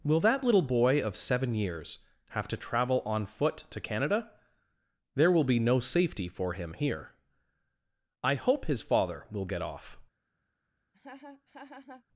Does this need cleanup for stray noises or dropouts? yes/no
yes